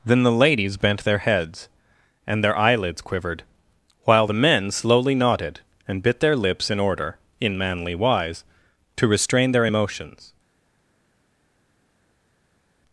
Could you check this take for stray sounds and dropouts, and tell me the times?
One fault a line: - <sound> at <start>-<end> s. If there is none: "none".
none